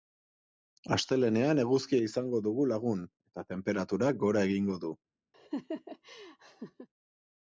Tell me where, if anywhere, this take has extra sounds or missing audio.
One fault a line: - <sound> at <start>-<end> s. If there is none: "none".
- laugh at 5.3-6.9 s